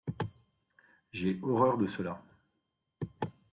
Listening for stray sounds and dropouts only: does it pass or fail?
pass